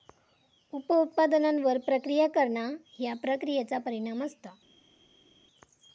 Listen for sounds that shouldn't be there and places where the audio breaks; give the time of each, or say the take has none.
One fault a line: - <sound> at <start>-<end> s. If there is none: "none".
none